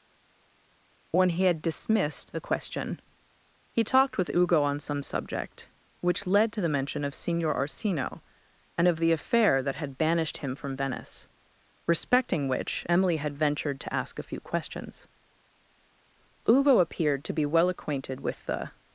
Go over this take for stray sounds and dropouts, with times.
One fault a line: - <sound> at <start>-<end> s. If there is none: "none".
none